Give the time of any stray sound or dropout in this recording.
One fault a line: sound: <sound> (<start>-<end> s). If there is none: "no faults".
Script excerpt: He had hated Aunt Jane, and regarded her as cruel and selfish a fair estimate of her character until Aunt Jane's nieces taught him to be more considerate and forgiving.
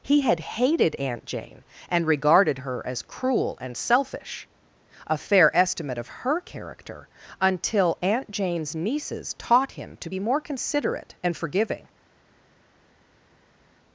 no faults